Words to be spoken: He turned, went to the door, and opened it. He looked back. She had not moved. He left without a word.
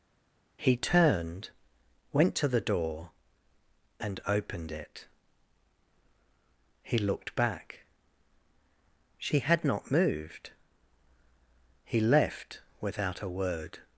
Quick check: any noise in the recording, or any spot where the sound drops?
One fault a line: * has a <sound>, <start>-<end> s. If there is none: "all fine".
all fine